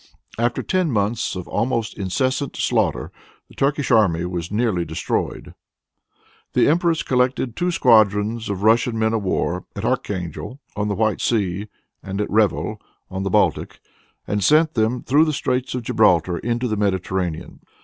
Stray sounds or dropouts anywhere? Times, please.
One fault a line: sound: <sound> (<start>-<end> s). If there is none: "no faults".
no faults